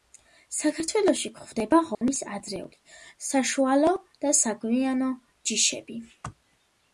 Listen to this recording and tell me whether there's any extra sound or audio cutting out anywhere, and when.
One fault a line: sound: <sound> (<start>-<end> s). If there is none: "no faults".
sound: dropout (1.9-2.0 s)